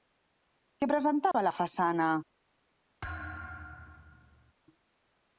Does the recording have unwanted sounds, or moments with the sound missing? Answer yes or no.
yes